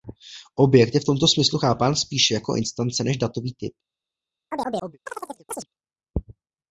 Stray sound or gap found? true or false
true